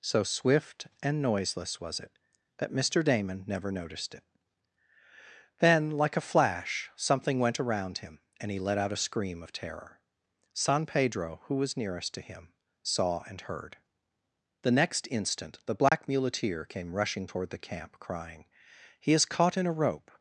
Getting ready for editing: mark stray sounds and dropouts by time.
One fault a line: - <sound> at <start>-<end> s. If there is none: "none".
- dropout at 15.9-15.9 s